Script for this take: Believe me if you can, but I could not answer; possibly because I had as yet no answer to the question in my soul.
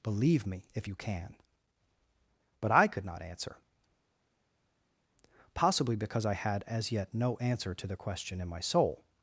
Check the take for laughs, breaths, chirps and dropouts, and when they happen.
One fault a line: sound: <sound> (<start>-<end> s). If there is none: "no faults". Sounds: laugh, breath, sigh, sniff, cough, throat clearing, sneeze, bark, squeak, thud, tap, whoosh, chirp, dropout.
no faults